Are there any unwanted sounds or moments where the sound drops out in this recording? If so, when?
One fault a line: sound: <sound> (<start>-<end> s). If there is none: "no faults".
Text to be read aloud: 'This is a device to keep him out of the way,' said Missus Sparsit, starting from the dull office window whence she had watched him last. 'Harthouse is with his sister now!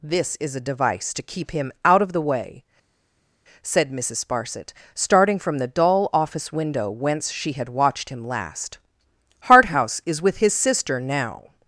no faults